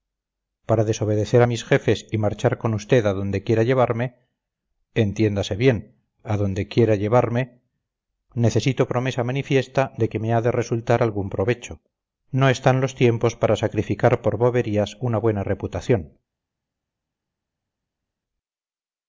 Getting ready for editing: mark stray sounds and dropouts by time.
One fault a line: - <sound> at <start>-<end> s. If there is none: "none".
none